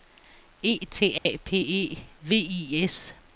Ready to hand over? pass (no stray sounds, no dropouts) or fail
fail